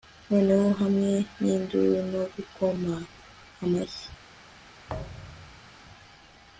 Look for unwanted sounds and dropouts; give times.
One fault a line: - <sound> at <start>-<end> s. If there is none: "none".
- thud at 4.9-5.7 s